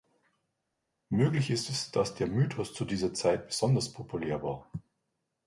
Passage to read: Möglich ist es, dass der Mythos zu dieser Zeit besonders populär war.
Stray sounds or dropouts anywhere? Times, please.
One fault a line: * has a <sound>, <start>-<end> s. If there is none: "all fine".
all fine